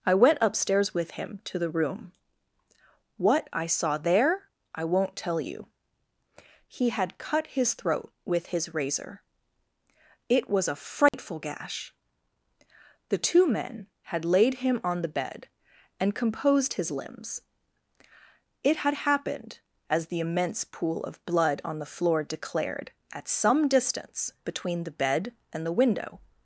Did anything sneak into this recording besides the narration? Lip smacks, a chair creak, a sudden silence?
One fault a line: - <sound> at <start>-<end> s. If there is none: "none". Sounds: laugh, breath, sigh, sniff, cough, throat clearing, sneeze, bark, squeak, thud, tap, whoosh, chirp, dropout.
- dropout at 11.1-11.1 s